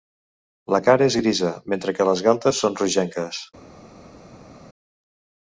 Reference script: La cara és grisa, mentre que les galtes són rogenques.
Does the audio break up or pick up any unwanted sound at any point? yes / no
no